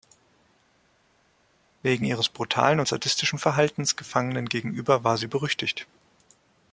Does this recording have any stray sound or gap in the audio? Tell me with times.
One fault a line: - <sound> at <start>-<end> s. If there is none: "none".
none